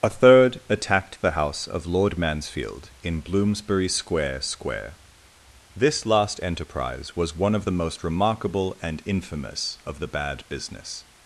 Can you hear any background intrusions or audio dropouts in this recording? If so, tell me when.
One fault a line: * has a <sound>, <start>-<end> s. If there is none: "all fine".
all fine